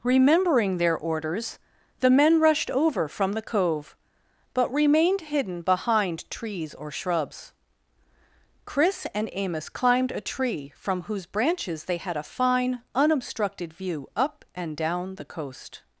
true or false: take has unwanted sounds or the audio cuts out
false